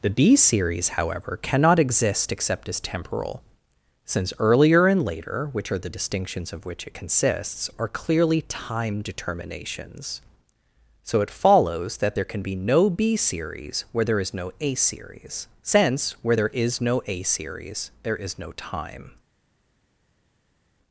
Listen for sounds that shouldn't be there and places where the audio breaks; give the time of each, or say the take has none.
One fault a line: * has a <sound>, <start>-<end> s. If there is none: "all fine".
all fine